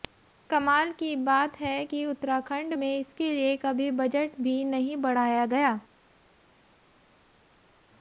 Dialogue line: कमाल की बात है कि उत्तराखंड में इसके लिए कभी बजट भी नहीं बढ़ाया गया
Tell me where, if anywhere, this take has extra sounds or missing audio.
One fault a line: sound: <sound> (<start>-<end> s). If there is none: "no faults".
no faults